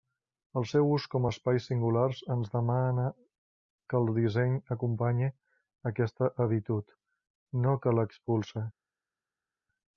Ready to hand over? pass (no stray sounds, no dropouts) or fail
pass